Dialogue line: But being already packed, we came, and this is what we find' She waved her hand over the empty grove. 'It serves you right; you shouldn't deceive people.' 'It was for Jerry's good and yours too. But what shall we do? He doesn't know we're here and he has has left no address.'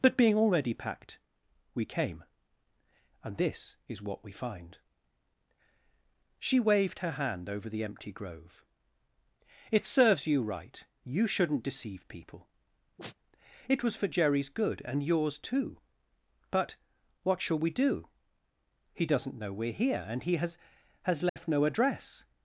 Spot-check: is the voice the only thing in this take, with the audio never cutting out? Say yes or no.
no